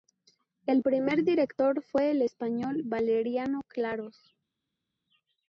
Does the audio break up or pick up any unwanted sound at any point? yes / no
no